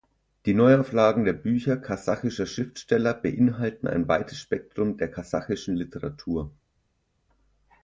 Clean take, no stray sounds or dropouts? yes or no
yes